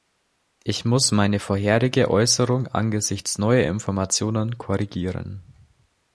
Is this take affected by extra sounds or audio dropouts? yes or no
no